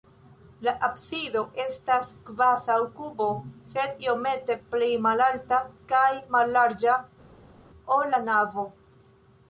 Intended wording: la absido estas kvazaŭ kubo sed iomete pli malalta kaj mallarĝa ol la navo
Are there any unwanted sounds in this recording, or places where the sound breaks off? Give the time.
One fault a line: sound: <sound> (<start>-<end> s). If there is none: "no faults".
no faults